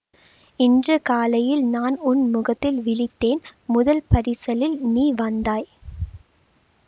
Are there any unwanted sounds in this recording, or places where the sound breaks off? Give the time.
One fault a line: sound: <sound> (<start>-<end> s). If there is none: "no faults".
no faults